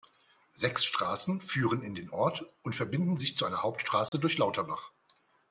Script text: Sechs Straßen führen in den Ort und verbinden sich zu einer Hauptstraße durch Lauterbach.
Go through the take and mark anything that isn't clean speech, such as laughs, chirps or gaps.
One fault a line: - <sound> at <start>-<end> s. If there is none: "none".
- dropout at 4.1-4.1 s